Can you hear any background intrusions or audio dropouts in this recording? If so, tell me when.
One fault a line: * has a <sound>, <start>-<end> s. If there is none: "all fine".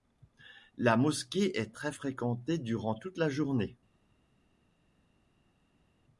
all fine